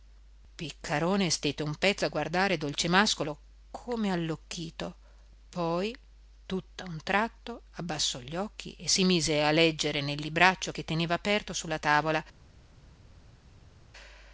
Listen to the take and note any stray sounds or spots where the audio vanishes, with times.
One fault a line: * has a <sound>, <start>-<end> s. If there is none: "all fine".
all fine